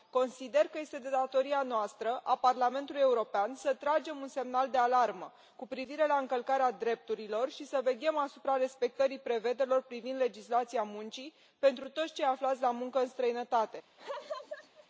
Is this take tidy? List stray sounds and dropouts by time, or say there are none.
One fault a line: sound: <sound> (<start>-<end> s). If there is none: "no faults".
sound: laugh (14.0-14.9 s)